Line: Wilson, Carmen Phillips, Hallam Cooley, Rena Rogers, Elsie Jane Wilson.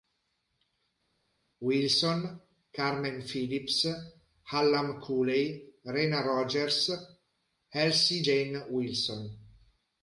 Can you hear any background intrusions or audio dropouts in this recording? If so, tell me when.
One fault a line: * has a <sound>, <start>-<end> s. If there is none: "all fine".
all fine